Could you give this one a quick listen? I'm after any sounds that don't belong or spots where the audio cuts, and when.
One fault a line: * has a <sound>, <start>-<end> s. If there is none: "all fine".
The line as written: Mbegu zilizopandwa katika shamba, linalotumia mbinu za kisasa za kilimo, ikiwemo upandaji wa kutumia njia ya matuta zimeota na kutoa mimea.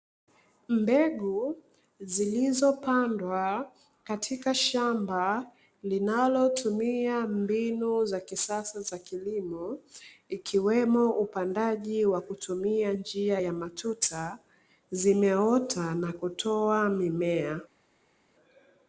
all fine